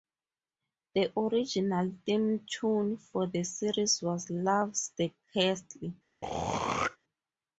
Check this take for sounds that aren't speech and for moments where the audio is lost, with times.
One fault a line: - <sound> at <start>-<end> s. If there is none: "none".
- throat clearing at 6.2-7.0 s